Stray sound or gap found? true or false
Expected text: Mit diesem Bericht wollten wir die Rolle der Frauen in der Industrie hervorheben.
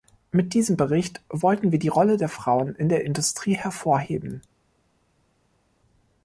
false